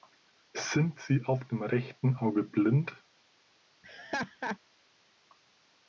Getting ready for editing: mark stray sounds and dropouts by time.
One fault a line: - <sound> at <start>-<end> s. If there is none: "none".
- laugh at 3.8-4.6 s